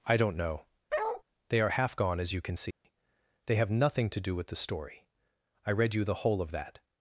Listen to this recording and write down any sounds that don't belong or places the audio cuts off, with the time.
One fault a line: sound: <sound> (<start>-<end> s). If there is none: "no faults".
sound: bark (0.9-1.2 s)
sound: dropout (2.7-2.8 s)